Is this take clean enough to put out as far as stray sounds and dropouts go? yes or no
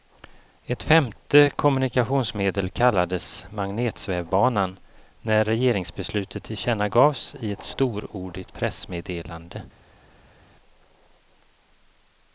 yes